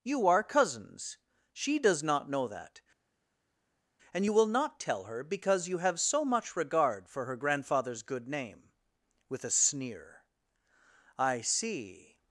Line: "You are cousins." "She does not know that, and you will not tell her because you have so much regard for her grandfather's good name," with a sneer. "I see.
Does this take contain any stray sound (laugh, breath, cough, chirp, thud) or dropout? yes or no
no